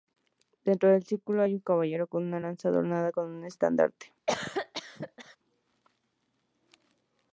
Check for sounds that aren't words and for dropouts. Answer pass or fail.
fail